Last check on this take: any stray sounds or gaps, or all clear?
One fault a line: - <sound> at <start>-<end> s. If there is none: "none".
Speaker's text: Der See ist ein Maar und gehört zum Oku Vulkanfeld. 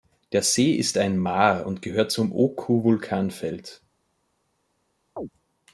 - chirp at 5.2-5.3 s